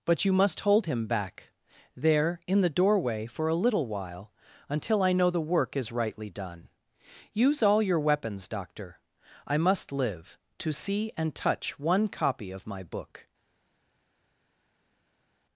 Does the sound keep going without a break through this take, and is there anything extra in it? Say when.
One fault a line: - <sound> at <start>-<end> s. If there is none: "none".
none